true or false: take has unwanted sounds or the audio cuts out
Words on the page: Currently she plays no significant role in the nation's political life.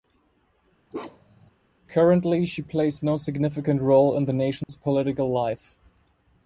true